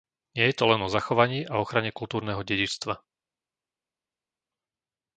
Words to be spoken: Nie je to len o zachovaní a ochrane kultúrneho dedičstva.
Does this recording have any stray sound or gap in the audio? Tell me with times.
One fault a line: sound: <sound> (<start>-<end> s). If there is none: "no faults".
no faults